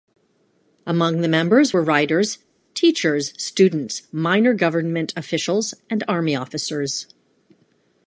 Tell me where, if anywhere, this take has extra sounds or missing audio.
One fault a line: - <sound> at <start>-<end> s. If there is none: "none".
none